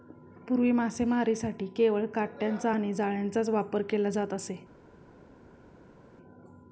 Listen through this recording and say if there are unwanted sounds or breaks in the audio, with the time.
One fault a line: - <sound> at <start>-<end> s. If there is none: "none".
none